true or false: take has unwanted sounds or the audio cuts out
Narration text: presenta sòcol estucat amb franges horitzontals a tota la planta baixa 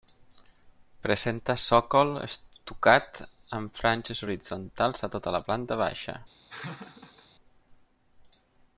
true